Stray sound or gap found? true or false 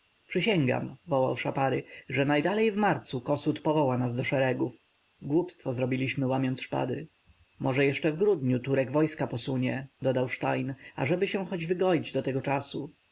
false